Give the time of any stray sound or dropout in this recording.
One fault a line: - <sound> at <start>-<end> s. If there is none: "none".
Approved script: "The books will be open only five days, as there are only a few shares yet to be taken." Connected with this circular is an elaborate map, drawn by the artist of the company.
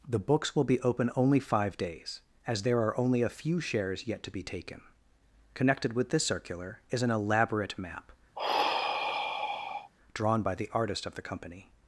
- sigh at 8.4-9.9 s